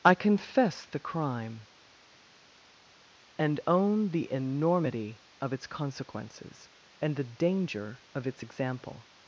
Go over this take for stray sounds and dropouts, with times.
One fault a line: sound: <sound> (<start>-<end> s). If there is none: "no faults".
no faults